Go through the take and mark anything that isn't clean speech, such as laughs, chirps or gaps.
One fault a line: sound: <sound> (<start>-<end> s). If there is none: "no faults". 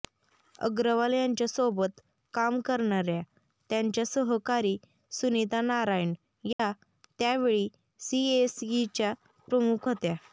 sound: dropout (6.5-6.6 s)